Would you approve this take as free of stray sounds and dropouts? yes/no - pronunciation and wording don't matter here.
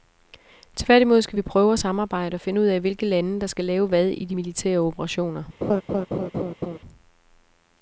no